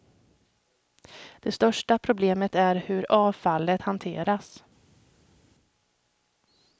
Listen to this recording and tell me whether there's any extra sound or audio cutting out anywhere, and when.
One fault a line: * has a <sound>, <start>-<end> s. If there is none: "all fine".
all fine